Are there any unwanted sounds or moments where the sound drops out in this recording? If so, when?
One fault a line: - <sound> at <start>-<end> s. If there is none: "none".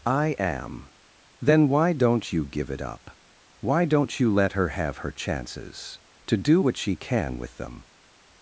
none